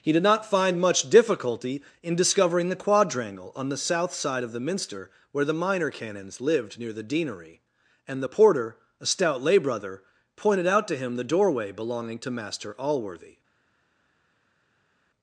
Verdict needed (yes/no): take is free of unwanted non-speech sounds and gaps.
yes